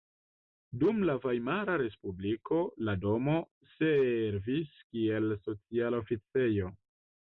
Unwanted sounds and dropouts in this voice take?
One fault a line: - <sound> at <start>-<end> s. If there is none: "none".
none